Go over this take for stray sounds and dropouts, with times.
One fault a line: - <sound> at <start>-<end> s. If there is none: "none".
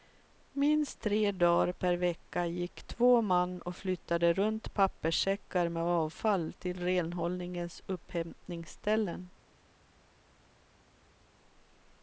none